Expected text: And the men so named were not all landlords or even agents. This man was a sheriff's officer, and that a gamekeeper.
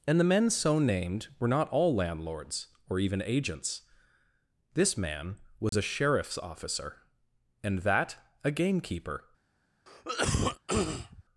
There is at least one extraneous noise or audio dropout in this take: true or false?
true